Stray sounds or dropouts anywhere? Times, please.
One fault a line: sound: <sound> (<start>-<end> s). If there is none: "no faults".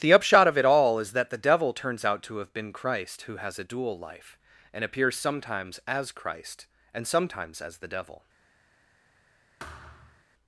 sound: thud (9.6-10.2 s)